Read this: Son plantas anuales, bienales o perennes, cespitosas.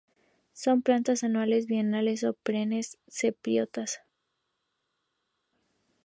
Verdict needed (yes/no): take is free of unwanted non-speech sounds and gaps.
yes